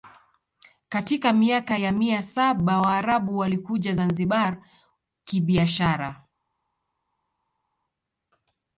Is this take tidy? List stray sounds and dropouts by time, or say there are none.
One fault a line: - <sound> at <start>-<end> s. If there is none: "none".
none